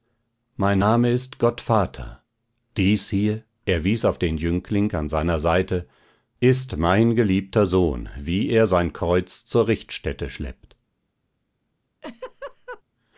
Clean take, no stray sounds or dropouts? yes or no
no